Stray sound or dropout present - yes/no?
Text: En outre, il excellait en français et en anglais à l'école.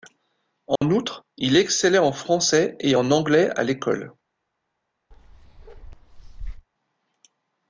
yes